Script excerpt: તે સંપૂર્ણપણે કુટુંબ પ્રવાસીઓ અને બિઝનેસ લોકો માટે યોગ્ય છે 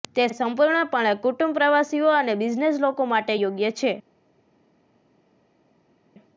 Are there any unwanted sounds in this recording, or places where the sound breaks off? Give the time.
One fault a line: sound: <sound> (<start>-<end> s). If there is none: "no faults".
no faults